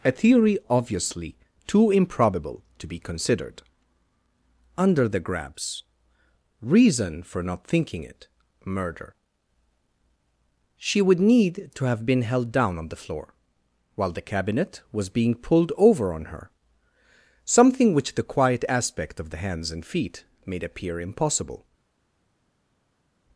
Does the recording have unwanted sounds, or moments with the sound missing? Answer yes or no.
no